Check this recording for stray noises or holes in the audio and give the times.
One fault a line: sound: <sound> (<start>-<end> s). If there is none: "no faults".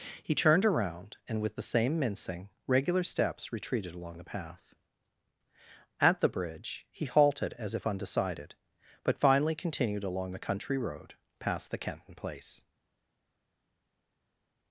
no faults